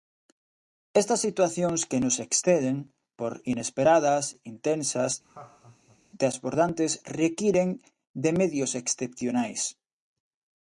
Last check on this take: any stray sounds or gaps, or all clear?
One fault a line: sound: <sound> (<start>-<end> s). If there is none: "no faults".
sound: laugh (5.2-6.0 s)